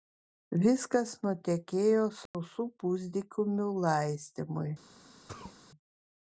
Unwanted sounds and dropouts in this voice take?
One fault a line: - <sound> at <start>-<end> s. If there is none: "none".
- dropout at 2.3-2.3 s
- sneeze at 5.3-5.6 s